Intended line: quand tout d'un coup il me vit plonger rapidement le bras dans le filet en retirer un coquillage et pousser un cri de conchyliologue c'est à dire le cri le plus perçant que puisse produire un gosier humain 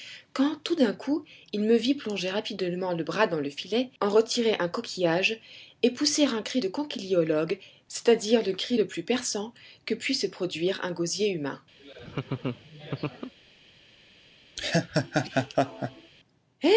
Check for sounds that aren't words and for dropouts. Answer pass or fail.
fail